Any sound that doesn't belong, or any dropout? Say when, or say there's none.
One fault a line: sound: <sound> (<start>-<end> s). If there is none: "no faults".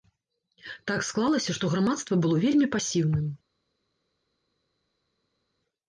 no faults